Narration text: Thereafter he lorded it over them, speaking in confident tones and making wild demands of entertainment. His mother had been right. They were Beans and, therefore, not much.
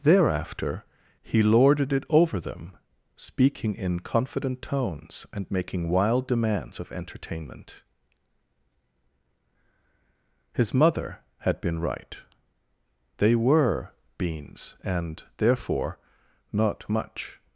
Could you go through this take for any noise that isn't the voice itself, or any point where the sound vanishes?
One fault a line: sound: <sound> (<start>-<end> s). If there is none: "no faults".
no faults